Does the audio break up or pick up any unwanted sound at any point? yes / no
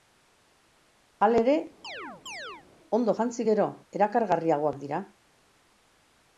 yes